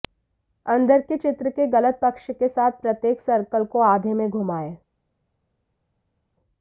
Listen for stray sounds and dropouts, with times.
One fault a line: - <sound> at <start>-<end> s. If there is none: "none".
none